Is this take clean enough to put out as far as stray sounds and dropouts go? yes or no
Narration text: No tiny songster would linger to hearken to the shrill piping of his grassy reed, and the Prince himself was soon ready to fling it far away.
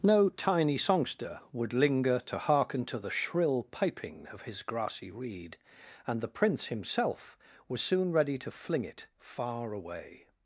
yes